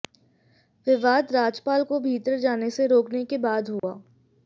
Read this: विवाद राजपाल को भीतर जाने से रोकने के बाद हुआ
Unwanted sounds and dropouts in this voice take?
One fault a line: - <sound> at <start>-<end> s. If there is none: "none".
- dropout at 3.8-3.8 s